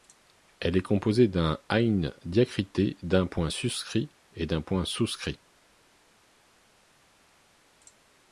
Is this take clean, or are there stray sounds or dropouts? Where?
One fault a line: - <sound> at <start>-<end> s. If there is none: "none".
none